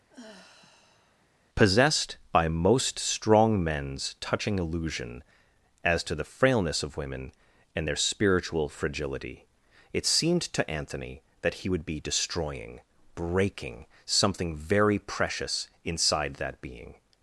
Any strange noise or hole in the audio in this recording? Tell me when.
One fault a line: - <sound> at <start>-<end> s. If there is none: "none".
- sigh at 0.1-1.3 s